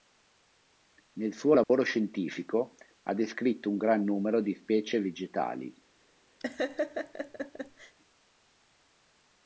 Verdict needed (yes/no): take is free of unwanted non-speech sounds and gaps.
no